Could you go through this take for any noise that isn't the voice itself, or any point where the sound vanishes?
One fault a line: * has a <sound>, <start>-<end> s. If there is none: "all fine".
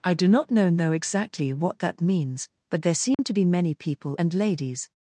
* has a dropout, 3.1-3.2 s